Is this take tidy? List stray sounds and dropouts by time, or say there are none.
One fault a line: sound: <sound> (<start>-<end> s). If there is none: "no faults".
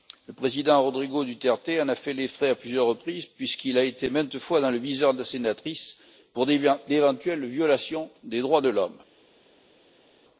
no faults